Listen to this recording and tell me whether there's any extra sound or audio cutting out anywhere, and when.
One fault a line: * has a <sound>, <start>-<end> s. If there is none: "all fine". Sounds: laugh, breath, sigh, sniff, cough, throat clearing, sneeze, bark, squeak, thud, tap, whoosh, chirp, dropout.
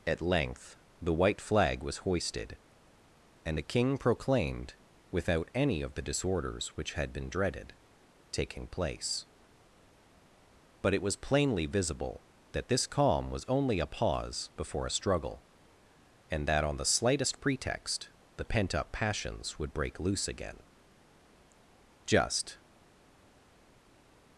all fine